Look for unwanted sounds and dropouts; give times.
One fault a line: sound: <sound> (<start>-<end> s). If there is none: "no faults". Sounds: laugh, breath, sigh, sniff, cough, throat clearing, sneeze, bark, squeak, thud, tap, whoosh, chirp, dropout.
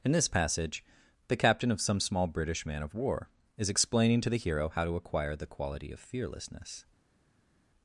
no faults